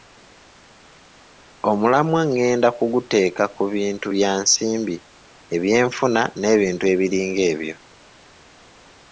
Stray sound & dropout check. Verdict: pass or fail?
pass